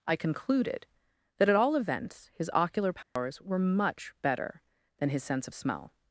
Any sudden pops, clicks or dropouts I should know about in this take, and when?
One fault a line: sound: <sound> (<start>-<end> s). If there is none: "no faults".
sound: dropout (3.0-3.2 s)